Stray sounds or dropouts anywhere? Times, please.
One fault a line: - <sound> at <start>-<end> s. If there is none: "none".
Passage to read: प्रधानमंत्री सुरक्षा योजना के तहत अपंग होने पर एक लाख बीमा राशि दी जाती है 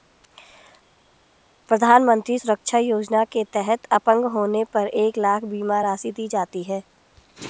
none